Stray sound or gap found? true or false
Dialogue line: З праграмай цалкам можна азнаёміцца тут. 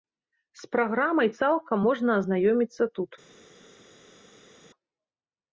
false